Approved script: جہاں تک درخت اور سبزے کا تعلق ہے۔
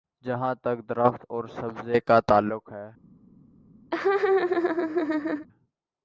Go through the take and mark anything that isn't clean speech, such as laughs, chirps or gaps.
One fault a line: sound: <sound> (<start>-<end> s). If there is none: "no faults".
sound: laugh (3.9-5.5 s)